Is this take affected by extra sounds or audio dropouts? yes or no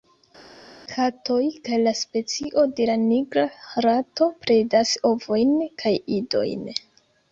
no